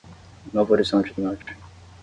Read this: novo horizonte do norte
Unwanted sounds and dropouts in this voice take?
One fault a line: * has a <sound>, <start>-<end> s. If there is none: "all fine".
* has a dropout, 1.4-1.5 s